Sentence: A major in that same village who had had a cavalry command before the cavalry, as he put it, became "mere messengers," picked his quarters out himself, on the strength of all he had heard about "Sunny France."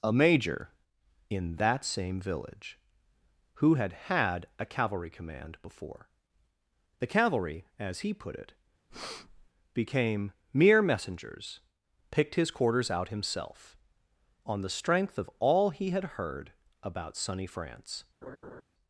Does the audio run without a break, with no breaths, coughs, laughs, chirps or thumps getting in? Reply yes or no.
no